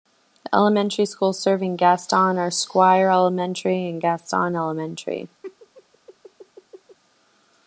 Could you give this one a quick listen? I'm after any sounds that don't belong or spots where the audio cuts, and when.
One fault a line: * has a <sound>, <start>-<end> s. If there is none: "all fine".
* has a laugh, 5.4-7.0 s